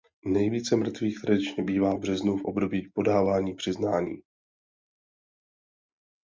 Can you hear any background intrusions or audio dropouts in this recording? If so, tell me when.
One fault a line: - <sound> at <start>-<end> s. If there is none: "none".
none